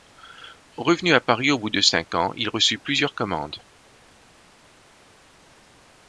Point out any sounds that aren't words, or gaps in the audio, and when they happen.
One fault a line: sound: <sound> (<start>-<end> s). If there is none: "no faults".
no faults